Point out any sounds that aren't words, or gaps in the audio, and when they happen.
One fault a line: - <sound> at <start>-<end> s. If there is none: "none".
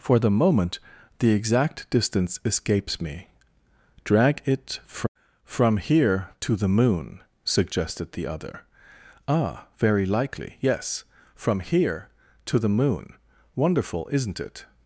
none